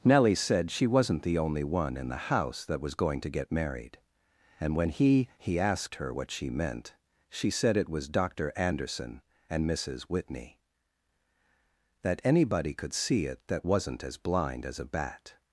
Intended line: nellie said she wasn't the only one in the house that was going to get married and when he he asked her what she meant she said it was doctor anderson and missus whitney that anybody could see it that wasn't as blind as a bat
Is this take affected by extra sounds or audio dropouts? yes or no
no